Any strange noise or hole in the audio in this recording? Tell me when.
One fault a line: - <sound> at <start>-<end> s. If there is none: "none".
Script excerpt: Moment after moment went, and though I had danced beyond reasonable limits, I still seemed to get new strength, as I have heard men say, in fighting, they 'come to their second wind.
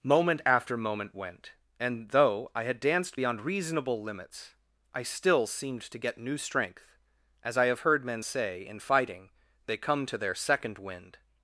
none